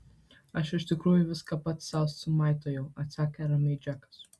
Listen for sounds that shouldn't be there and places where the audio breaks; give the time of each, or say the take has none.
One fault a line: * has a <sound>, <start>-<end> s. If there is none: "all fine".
all fine